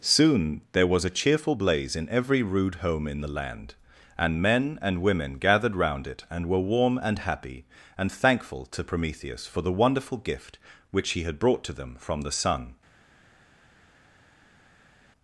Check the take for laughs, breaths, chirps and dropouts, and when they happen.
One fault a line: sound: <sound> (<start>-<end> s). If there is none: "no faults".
no faults